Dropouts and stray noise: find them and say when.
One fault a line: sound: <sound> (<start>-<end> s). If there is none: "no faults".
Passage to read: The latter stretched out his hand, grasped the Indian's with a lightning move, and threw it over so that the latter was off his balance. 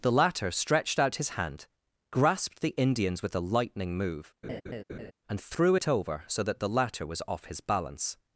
sound: laugh (4.4-5.1 s)